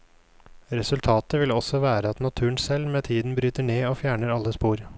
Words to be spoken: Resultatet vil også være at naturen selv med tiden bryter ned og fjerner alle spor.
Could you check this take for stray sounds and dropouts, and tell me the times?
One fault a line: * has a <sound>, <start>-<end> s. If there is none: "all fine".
all fine